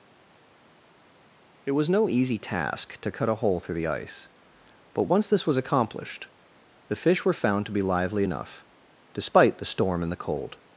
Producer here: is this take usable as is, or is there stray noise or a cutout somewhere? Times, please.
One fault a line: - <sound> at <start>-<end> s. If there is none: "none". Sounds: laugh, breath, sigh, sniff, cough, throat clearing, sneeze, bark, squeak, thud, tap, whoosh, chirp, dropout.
none